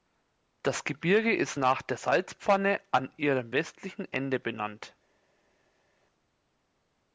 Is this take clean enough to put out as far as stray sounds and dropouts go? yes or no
yes